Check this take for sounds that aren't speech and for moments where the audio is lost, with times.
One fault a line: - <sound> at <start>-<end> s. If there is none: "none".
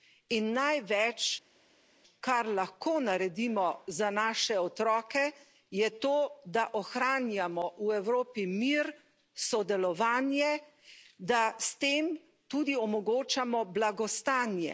none